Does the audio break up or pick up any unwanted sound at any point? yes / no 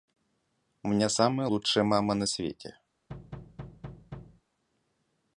yes